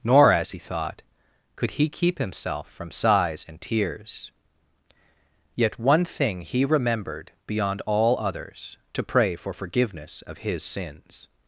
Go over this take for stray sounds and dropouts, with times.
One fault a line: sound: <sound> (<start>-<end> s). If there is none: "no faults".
no faults